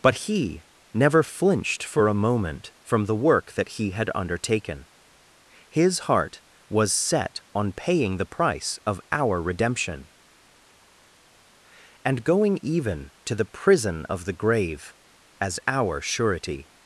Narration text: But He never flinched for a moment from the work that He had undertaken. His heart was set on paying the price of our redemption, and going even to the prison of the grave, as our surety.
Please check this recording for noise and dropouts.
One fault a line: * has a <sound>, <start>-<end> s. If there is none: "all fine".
all fine